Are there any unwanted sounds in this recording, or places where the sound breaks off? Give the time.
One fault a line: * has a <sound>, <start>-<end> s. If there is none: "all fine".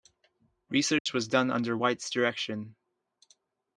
* has a dropout, 1.0-1.1 s